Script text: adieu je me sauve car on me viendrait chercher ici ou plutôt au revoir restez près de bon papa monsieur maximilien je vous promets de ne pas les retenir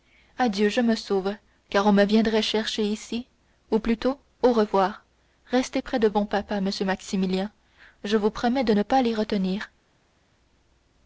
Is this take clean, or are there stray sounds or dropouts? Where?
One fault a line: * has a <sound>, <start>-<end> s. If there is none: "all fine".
all fine